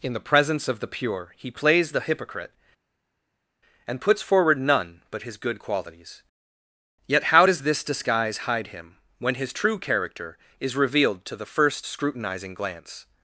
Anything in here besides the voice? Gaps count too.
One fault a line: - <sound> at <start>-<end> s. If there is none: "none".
none